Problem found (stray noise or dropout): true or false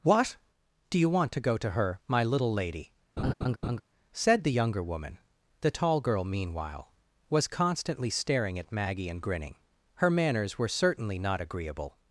true